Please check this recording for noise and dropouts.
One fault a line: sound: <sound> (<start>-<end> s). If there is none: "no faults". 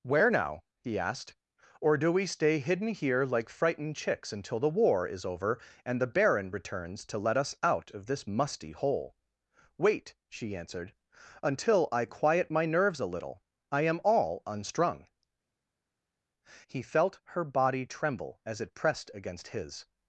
no faults